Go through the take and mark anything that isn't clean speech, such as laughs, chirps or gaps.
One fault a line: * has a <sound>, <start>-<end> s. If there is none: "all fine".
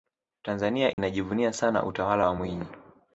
* has a dropout, 0.9-1.0 s